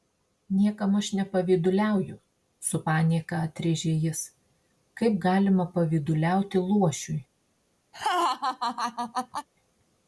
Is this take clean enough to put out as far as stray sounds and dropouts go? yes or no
no